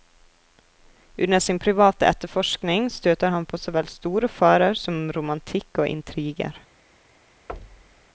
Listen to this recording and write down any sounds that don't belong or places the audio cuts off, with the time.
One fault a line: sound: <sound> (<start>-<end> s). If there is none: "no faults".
sound: thud (7.5-8.1 s)